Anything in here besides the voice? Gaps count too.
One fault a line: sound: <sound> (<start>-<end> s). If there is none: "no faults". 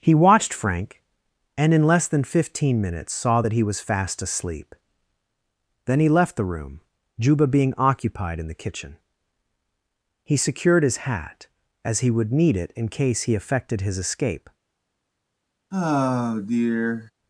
sound: sigh (15.7-17.1 s)